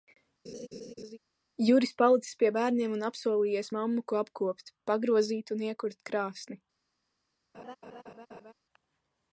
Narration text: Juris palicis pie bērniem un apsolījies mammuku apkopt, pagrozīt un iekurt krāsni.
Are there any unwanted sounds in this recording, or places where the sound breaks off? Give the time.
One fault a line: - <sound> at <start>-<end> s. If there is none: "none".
- laugh at 0.5-1.2 s
- laugh at 7.5-8.5 s